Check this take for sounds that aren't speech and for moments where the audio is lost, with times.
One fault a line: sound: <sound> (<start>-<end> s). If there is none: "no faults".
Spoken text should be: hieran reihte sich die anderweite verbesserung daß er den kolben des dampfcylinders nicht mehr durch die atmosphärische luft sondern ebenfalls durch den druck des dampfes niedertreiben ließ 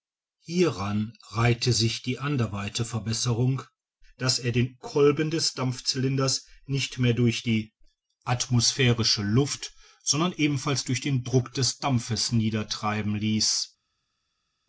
no faults